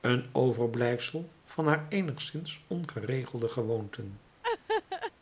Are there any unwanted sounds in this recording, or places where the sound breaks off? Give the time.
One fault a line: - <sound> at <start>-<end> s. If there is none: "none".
- laugh at 4.4-5.1 s